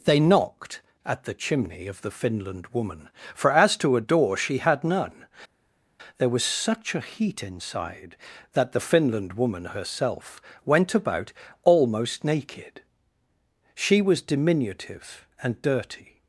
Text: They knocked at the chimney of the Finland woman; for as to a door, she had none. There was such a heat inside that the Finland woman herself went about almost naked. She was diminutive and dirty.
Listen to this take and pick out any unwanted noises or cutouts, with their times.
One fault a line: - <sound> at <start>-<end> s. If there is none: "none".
none